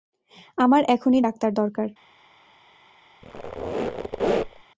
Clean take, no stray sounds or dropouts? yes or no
no